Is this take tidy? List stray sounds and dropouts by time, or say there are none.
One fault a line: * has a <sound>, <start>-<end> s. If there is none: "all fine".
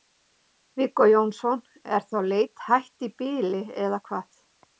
all fine